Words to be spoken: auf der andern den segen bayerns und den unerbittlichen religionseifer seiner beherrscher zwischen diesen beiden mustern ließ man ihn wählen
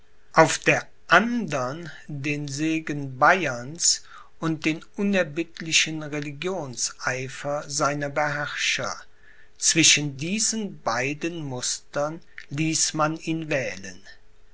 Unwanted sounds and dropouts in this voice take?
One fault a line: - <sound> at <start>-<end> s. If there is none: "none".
none